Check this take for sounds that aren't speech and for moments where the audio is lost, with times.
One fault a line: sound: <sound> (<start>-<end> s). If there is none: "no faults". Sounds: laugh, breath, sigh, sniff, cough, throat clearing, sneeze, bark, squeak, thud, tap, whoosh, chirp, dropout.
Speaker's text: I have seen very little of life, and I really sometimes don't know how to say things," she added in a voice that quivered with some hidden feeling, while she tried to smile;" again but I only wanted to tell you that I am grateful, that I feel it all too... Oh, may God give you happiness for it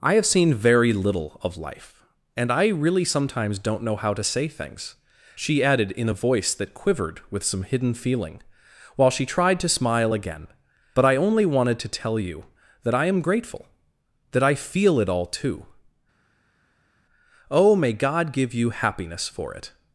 no faults